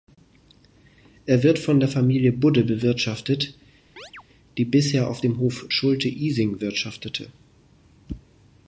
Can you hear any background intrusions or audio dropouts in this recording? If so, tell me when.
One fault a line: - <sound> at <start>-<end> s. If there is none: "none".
- chirp at 4.0-4.2 s